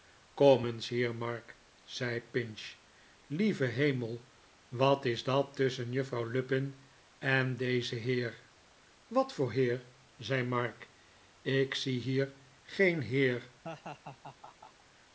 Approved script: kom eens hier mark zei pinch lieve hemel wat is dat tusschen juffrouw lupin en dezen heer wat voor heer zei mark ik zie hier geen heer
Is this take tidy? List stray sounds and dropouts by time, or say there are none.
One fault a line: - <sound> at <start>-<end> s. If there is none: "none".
- laugh at 13.6-14.8 s